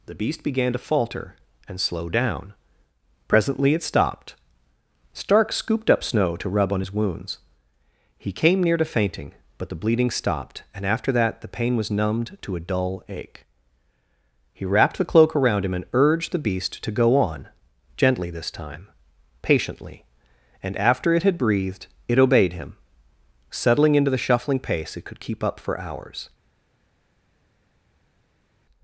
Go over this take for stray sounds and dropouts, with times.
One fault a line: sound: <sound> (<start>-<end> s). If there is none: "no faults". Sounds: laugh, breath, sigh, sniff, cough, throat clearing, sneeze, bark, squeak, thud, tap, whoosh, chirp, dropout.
no faults